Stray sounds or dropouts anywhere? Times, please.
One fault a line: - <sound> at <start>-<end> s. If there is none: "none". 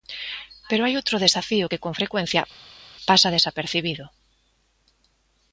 none